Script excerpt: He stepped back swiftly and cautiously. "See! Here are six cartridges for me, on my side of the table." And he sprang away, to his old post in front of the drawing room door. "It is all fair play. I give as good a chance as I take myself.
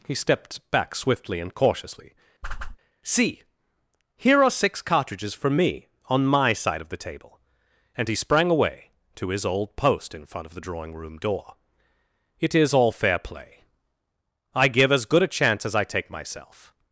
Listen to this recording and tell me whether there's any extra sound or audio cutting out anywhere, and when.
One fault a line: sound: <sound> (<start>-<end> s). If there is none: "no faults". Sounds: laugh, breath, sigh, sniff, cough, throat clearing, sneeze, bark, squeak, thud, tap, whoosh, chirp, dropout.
sound: whoosh (2.4-2.8 s)